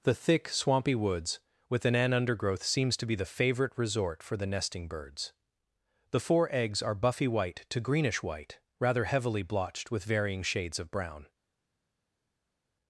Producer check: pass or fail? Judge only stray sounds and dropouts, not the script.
pass